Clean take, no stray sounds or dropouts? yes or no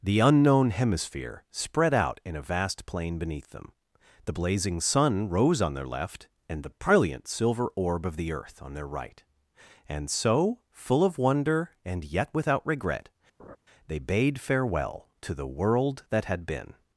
no